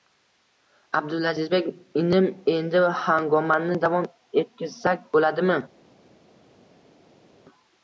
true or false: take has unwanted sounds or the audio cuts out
false